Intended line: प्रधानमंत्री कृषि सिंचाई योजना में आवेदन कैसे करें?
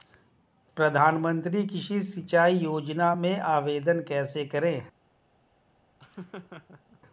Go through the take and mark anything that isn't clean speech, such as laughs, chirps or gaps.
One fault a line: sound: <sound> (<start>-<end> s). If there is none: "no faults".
sound: laugh (6.0-7.0 s)